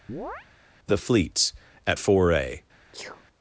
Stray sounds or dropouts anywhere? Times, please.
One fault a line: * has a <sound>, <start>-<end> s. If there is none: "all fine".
* has a chirp, 0.1-0.5 s
* has a sneeze, 2.9-3.3 s